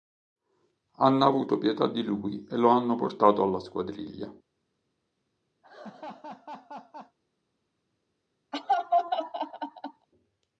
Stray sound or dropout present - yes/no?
yes